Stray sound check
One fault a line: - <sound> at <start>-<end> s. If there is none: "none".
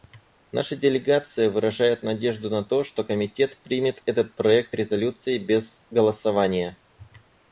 none